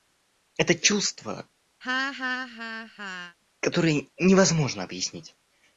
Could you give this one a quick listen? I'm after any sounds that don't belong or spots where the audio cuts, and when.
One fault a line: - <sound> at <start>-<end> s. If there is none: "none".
- laugh at 1.8-3.4 s